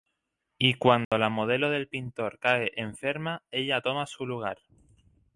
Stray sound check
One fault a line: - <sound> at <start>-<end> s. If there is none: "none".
- dropout at 1.0-1.1 s